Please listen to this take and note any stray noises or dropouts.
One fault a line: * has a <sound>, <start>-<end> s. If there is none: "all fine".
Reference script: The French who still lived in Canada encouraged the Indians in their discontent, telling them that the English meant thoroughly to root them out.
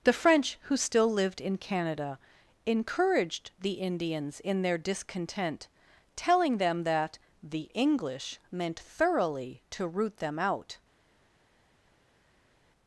all fine